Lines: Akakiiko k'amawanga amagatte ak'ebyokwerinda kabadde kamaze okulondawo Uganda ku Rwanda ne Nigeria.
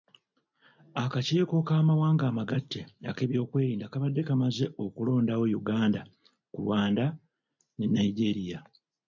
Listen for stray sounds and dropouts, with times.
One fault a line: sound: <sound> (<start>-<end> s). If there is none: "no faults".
no faults